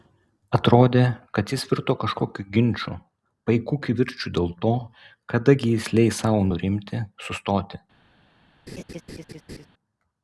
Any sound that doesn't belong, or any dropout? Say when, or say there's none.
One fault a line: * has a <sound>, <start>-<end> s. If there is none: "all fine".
* has a laugh, 8.7-9.7 s